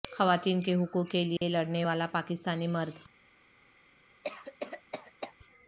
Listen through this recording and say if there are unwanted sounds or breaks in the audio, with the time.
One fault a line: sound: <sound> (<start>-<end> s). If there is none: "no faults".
sound: dropout (1.4-1.4 s)
sound: cough (4.2-5.3 s)